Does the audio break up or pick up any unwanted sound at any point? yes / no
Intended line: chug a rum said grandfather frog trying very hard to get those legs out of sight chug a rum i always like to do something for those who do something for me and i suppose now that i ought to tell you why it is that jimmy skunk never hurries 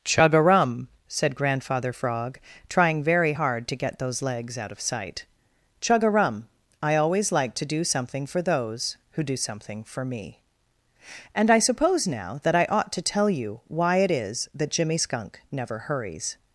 no